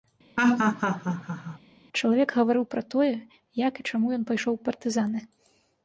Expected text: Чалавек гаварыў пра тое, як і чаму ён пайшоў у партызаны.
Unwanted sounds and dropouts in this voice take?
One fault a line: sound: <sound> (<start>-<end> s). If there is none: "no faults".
sound: laugh (0.4-1.6 s)